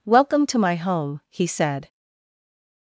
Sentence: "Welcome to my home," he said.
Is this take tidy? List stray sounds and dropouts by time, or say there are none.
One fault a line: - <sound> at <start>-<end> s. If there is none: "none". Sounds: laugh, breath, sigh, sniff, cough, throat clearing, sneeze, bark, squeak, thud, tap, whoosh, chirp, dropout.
none